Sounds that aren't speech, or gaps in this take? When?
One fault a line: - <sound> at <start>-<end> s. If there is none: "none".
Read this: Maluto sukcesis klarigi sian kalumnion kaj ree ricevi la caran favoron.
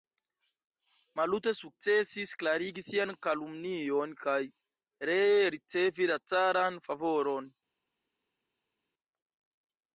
none